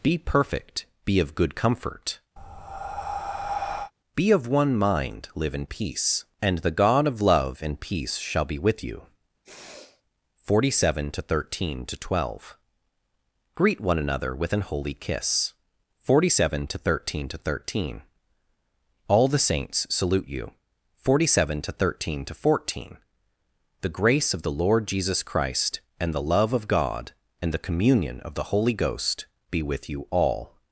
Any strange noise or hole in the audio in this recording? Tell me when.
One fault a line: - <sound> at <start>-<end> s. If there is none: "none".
- breath at 2.4-3.9 s
- sniff at 9.4-10.0 s